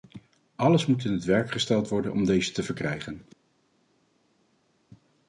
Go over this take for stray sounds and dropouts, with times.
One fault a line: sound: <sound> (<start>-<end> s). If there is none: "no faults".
no faults